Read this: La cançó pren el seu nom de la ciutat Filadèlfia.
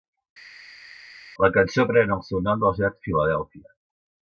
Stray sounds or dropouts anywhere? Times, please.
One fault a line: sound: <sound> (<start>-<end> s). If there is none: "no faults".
no faults